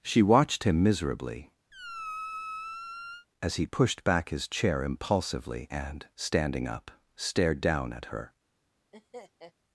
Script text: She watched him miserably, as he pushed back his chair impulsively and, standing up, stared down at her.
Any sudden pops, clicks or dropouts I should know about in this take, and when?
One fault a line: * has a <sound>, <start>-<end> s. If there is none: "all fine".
* has a squeak, 1.7-3.3 s
* has a laugh, 8.9-9.5 s